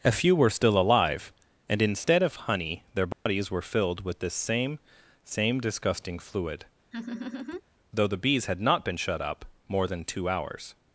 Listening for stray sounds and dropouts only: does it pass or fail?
fail